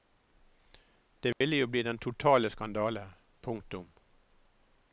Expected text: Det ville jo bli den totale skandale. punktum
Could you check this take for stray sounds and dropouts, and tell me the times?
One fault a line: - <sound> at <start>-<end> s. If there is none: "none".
- dropout at 1.3-1.4 s